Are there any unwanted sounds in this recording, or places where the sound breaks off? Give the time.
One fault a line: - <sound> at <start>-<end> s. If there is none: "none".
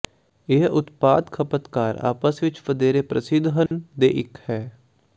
- dropout at 3.7-3.7 s